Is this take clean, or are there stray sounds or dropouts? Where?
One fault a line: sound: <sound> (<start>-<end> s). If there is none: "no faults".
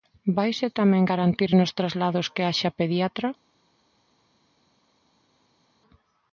no faults